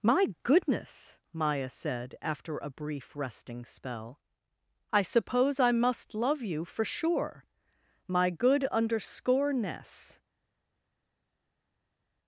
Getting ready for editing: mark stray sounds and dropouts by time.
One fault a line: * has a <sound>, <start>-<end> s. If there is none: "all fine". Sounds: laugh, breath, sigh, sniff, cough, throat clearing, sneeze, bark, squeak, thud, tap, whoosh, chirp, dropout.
all fine